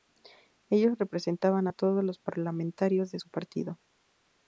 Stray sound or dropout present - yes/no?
no